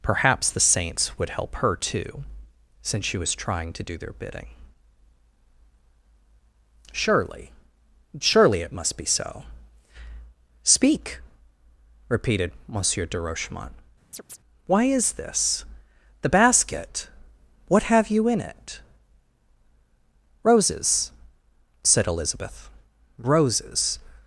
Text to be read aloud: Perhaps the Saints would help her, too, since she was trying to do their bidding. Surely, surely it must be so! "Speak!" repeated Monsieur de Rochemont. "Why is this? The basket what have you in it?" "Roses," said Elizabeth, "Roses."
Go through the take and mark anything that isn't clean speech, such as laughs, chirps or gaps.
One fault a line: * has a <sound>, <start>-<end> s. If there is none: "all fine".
* has a chirp, 14.1-14.4 s